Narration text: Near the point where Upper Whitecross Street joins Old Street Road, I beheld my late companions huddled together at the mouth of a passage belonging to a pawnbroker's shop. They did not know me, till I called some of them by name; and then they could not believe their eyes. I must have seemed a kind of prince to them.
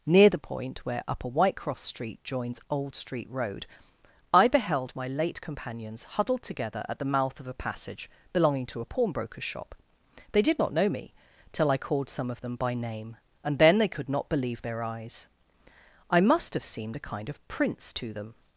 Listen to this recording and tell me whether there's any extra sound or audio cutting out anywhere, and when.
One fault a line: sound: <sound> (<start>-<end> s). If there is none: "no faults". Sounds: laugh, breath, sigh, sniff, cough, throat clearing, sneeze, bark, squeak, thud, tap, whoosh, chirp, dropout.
no faults